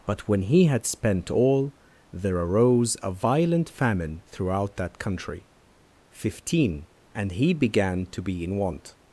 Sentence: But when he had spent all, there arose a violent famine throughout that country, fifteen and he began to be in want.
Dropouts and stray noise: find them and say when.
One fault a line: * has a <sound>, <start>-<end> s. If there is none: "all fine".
all fine